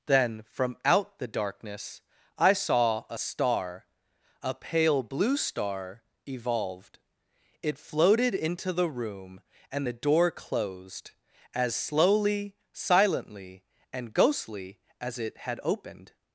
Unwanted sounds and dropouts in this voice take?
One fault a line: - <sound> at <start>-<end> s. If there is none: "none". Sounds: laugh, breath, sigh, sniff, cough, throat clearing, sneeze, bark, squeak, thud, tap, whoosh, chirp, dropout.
none